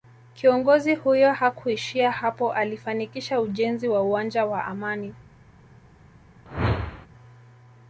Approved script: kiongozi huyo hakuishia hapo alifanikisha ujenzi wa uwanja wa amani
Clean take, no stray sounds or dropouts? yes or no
no